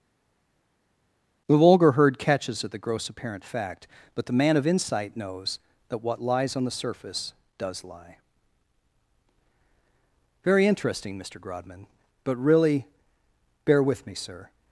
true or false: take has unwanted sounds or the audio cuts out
false